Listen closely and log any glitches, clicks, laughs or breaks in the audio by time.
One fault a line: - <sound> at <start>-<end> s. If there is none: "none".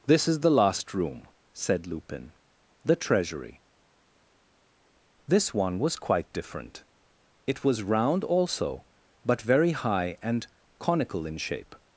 none